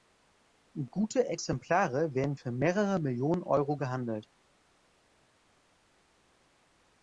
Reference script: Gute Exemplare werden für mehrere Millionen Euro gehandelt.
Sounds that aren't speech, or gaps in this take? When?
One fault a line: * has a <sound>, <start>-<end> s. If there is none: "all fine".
all fine